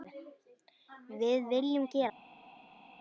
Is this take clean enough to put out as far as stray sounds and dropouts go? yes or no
yes